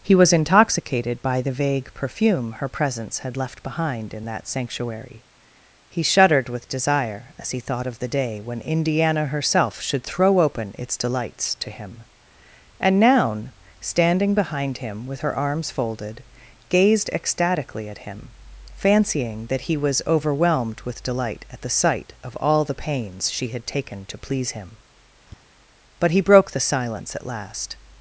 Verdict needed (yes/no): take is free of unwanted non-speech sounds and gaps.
no